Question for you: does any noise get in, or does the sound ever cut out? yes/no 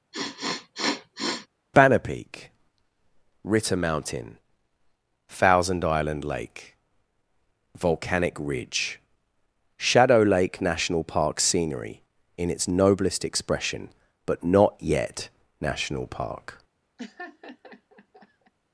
yes